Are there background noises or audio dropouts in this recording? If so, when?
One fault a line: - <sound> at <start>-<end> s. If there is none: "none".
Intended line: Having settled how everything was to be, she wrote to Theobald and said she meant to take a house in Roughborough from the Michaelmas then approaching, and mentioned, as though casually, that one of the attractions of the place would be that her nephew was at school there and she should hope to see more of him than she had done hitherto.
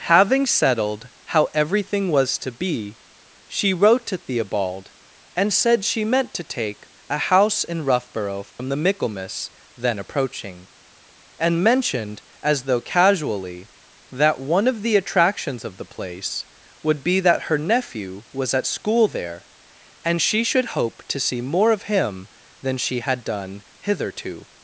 - dropout at 8.5-8.6 s